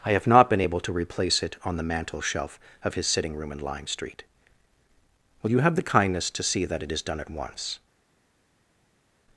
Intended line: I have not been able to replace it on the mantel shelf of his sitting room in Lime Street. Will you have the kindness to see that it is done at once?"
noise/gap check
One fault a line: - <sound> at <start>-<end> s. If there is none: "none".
none